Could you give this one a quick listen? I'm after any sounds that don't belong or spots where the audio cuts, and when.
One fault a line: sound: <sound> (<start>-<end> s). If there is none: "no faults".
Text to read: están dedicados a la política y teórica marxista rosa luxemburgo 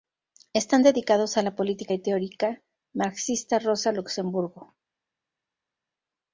no faults